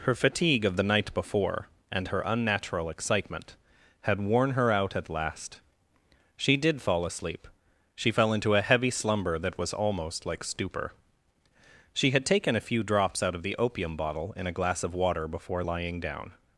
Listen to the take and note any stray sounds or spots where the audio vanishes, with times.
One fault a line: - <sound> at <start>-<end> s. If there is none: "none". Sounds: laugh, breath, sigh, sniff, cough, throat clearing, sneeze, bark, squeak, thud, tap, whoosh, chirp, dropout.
none